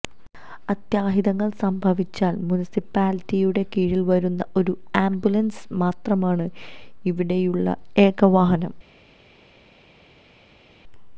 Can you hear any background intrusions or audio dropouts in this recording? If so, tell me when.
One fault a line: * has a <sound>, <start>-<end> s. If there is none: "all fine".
all fine